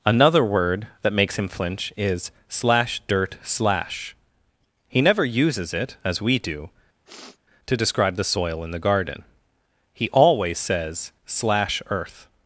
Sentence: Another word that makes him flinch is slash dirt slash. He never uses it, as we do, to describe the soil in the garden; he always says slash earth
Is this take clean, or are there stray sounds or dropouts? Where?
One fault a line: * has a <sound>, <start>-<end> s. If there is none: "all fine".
* has a sniff, 7.0-7.4 s